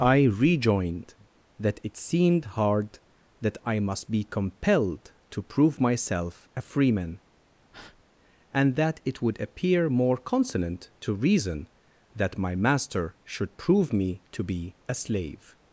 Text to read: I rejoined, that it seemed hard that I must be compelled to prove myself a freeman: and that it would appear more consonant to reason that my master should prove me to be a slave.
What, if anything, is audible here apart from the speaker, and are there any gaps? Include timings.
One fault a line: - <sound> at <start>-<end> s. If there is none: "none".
- breath at 7.7-8.0 s